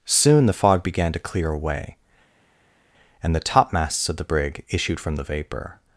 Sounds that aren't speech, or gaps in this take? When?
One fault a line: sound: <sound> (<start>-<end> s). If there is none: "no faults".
no faults